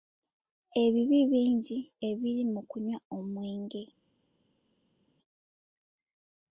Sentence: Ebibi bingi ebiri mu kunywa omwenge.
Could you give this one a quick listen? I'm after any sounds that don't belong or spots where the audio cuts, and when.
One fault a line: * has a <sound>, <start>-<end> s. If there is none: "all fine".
all fine